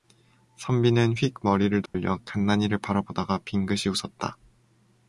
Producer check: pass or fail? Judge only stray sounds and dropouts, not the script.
fail